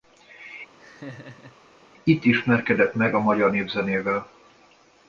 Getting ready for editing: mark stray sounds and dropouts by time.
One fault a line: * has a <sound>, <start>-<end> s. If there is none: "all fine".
* has a laugh, 0.8-1.6 s